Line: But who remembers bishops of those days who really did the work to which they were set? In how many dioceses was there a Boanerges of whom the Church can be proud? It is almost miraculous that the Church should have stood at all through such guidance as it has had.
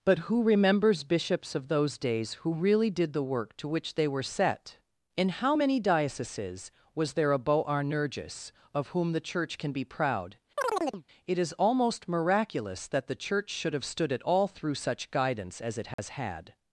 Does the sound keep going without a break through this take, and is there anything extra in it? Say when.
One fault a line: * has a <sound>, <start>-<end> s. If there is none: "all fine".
* has a chirp, 10.6-11.0 s
* has a dropout, 15.9-16.0 s